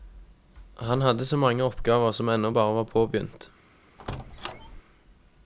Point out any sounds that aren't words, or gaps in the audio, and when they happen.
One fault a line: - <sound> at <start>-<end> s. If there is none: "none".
- squeak at 4.0-4.8 s